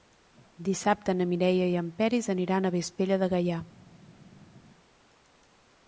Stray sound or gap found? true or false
false